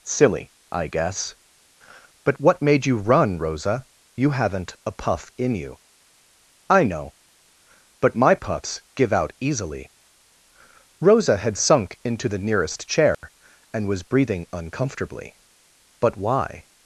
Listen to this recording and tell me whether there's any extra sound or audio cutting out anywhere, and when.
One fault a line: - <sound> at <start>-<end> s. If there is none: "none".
- dropout at 13.1-13.2 s